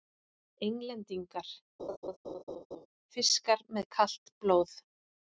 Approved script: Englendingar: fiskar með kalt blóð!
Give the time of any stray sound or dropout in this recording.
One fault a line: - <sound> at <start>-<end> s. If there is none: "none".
- laugh at 1.8-2.9 s